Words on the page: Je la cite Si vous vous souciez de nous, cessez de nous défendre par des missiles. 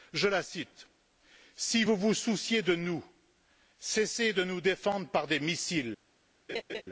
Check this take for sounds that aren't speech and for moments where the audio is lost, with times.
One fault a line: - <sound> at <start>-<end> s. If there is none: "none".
- laugh at 6.5-6.8 s